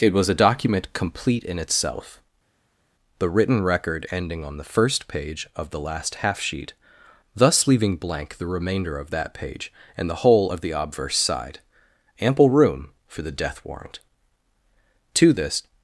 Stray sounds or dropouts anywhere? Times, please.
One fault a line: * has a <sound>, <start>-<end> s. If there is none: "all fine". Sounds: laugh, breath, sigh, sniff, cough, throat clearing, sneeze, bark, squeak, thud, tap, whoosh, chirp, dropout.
all fine